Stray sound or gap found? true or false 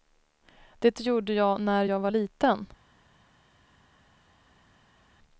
false